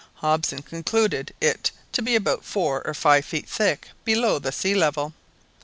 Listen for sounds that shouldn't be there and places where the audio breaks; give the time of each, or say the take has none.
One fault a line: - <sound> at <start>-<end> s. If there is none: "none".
none